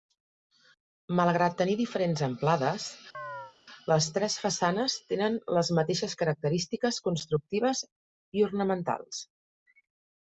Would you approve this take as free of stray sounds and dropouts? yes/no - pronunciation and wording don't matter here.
no